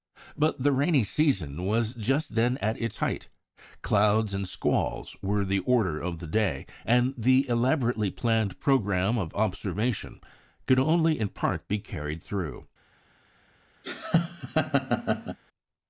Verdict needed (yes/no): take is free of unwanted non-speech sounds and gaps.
no